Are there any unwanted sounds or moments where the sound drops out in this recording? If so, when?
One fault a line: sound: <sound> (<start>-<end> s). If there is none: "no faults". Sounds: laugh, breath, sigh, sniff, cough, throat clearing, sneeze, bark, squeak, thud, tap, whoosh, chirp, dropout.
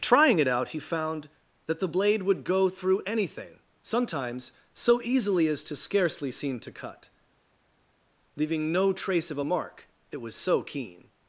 no faults